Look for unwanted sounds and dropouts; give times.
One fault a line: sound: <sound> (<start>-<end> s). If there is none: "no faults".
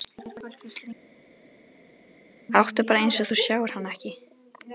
no faults